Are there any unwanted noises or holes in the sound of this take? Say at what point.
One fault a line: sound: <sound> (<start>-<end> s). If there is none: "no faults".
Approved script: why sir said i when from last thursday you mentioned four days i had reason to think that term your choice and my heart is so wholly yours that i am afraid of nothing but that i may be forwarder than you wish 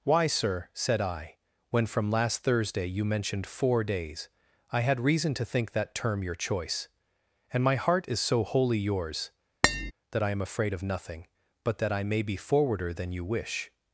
sound: tap (9.6-9.9 s)